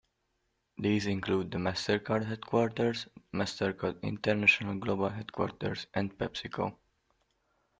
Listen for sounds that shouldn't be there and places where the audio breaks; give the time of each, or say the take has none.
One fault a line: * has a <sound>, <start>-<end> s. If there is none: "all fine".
all fine